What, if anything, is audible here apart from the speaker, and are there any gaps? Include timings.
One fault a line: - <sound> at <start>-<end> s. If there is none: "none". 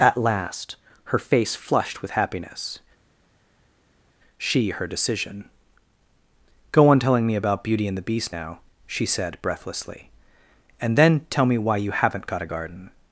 none